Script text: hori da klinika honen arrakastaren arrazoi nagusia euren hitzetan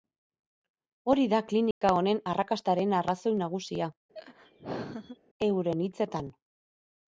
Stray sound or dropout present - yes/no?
yes